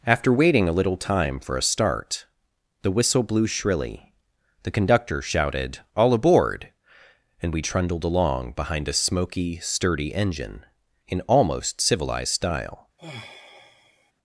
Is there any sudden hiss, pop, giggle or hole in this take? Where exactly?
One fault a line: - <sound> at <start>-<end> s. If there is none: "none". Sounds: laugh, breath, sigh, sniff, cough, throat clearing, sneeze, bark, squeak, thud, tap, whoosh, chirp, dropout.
- sigh at 13.0-14.1 s